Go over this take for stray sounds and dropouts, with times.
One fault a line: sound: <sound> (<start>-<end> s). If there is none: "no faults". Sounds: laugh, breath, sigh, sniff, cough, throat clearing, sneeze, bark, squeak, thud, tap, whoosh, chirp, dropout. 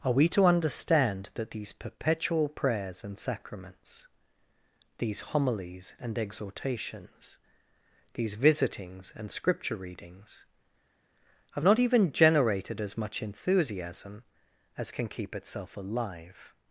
no faults